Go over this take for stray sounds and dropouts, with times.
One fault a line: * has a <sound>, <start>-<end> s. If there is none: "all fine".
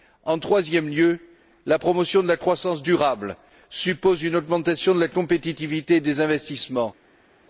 all fine